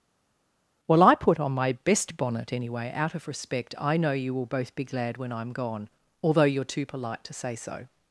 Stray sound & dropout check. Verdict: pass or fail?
pass